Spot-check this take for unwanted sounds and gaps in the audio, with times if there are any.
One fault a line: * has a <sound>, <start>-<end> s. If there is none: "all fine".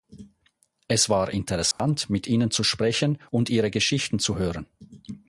* has a dropout, 1.7-1.8 s